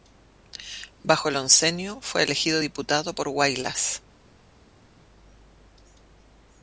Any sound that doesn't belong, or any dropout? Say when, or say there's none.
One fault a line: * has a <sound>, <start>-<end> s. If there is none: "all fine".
all fine